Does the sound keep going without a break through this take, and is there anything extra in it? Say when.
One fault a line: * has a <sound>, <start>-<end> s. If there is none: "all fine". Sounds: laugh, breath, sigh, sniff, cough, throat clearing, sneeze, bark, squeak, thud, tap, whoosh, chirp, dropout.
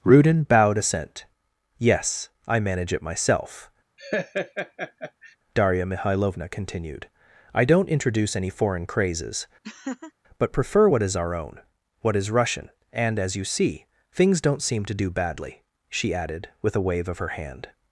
* has a laugh, 4.0-5.4 s
* has a laugh, 9.6-10.1 s